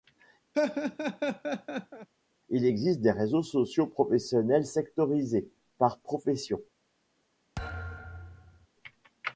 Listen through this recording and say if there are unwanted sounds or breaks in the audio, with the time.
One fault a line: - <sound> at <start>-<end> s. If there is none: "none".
- laugh at 0.5-2.1 s
- thud at 7.6-8.7 s